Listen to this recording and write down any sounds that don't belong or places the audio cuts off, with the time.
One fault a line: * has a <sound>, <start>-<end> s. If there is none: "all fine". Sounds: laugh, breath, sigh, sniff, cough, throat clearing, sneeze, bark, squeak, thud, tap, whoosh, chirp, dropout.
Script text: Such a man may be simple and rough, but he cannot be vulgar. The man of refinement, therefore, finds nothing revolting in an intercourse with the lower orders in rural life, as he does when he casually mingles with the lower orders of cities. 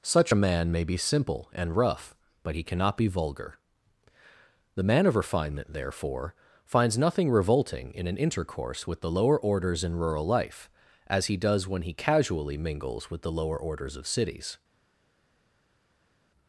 all fine